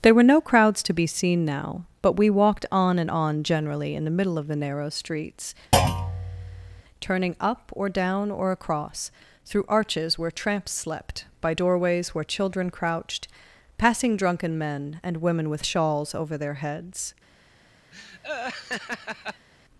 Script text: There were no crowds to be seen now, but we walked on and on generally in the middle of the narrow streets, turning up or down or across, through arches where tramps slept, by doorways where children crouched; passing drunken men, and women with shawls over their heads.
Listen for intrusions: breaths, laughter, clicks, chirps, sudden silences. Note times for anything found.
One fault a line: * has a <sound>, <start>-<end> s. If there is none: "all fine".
* has a thud, 5.7-6.8 s
* has a laugh, 17.9-19.5 s